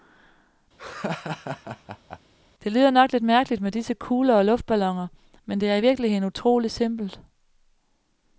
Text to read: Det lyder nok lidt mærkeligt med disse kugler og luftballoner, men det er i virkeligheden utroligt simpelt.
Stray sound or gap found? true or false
true